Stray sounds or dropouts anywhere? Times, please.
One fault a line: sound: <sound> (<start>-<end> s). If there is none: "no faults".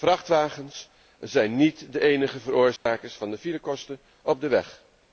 sound: dropout (2.8-2.9 s)